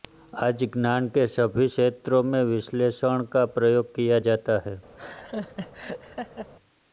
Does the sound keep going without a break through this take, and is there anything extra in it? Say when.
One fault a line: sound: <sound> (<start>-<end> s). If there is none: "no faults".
sound: laugh (5.0-6.5 s)